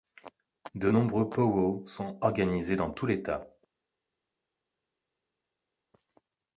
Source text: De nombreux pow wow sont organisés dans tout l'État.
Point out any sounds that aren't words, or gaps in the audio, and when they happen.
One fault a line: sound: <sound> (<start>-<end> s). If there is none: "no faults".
no faults